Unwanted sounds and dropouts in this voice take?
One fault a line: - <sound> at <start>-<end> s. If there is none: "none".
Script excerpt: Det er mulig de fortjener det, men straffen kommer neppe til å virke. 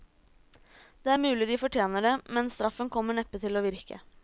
none